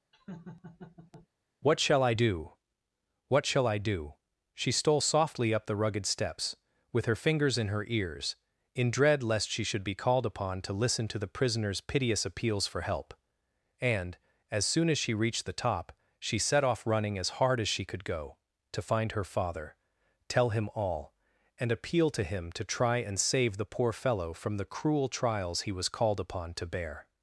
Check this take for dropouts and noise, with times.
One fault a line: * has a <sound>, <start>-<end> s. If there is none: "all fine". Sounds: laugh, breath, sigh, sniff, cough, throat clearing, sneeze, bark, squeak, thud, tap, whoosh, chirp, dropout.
* has a laugh, 0.1-1.3 s